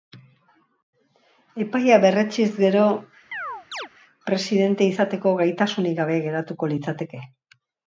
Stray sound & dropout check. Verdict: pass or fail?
fail